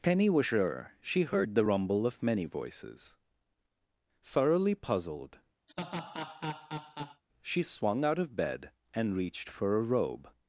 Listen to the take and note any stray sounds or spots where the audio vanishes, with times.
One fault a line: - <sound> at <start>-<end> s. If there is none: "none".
- laugh at 5.7-7.2 s